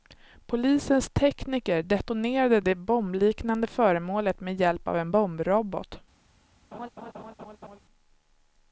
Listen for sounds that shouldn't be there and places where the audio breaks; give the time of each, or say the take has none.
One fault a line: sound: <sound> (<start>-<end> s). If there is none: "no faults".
sound: laugh (6.7-7.8 s)